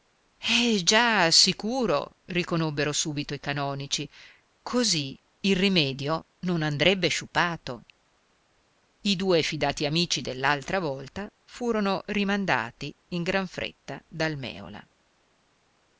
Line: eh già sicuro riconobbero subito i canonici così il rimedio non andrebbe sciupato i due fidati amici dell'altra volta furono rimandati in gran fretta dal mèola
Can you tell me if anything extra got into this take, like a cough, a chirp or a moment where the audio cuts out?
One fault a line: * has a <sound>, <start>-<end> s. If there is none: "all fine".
all fine